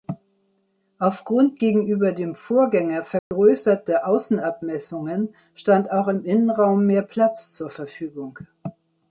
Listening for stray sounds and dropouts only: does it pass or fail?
fail